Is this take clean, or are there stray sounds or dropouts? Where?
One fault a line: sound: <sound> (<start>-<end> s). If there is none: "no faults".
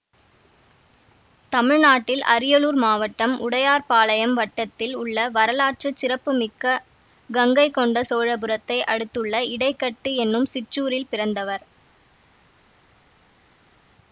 no faults